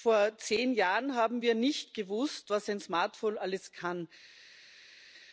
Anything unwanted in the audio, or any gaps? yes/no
no